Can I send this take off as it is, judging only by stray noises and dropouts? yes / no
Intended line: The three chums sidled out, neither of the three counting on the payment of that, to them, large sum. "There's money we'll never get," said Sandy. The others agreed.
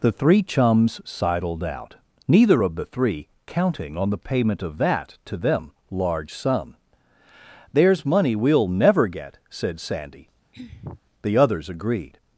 no